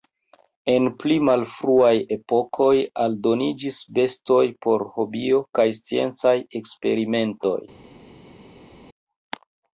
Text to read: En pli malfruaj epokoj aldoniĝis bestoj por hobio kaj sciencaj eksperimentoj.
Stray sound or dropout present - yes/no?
no